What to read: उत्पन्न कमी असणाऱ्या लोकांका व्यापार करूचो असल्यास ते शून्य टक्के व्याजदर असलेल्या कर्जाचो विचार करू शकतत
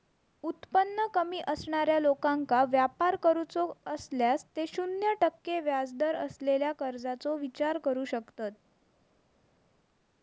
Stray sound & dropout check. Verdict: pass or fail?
pass